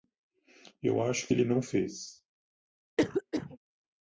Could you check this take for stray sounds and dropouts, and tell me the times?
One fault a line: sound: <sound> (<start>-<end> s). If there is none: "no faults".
sound: cough (3.0-3.6 s)